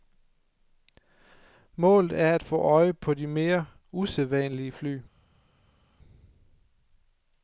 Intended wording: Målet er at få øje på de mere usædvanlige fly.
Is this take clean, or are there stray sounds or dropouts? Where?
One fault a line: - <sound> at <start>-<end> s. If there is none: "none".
none